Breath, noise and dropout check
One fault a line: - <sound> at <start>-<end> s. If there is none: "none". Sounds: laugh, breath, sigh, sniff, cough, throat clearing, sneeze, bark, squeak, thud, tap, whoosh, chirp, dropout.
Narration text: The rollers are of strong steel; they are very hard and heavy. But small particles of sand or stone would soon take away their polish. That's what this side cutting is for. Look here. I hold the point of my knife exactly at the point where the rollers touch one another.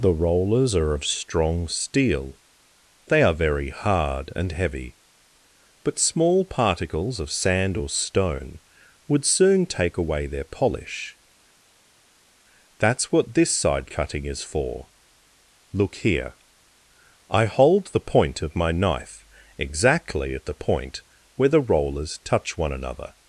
none